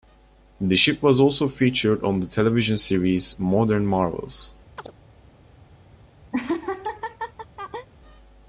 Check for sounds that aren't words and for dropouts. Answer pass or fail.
fail